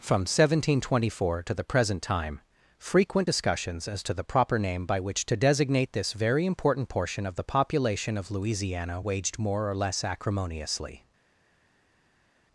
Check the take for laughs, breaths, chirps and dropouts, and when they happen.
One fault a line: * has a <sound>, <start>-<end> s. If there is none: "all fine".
all fine